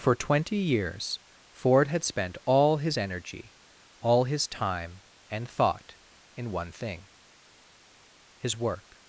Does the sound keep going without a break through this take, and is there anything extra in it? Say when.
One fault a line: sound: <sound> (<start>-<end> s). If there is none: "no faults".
no faults